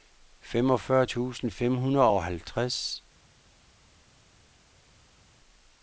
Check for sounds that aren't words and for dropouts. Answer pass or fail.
pass